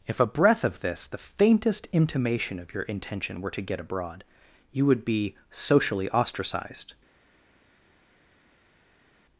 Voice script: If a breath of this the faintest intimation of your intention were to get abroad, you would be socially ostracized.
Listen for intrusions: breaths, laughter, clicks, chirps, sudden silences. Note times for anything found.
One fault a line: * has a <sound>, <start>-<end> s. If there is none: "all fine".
all fine